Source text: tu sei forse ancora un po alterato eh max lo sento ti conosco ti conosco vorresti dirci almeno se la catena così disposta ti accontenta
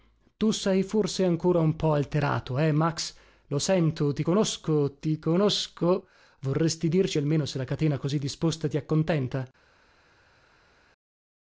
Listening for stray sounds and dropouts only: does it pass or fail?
pass